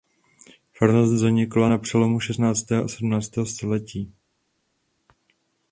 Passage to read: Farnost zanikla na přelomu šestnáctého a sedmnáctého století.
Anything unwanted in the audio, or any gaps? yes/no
no